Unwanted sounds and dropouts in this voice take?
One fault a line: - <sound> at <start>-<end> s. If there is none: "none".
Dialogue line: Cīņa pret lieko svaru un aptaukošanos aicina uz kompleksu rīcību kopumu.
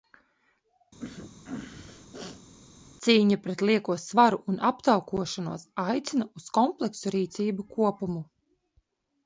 - sneeze at 1.0-2.5 s